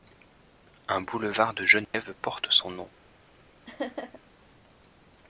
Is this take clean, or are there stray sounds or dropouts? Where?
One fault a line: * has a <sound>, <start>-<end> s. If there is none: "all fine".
* has a dropout, 1.8-1.9 s
* has a laugh, 3.7-4.2 s